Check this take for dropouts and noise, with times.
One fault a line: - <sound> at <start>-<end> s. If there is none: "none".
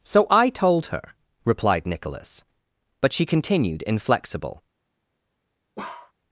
- bark at 5.8-6.1 s